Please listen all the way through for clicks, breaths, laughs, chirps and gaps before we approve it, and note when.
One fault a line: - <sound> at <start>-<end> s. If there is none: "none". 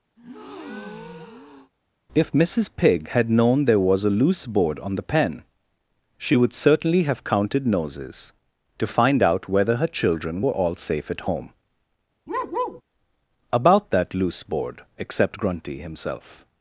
- breath at 0.2-1.7 s
- bark at 12.3-12.8 s